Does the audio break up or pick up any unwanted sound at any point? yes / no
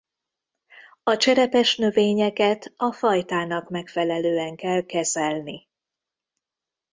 no